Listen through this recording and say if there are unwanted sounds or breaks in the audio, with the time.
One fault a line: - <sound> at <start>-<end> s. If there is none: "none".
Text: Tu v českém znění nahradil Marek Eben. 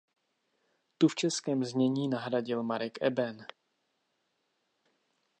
none